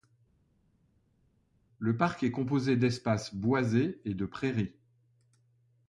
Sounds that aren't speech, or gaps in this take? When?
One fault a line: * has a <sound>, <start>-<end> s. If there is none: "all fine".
all fine